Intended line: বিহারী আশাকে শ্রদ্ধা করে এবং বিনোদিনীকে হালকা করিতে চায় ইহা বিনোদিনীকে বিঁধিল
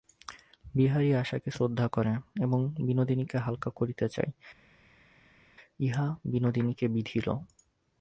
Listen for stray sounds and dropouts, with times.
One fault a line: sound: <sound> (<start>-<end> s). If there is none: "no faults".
no faults